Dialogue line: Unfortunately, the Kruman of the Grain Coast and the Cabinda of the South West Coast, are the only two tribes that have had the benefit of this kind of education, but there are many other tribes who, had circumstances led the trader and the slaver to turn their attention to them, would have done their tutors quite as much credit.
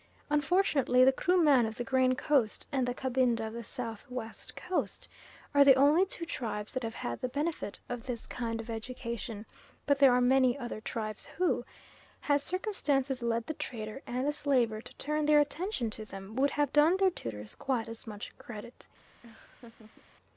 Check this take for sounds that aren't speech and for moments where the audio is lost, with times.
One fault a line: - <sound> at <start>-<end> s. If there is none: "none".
- laugh at 19.2-20.0 s